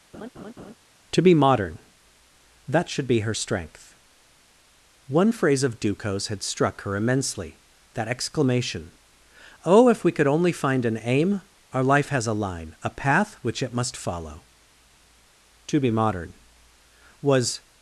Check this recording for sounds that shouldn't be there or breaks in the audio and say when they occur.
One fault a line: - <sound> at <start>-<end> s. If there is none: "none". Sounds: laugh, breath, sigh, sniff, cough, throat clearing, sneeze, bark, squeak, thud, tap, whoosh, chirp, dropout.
- laugh at 0.1-0.7 s